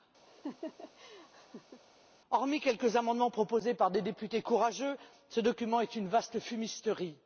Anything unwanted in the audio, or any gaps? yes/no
yes